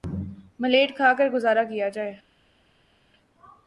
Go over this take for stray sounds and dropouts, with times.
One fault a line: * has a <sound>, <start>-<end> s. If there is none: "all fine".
all fine